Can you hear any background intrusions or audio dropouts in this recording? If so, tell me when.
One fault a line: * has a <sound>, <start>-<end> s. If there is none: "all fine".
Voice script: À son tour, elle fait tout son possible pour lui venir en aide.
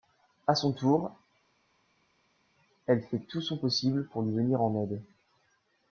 all fine